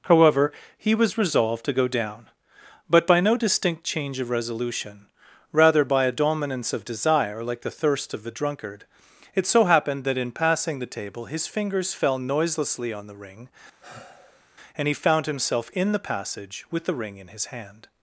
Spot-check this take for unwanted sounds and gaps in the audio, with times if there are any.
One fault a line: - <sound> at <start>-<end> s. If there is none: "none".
- sigh at 13.8-14.5 s